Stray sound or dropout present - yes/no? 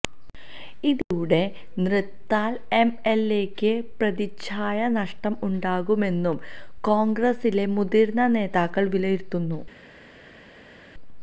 no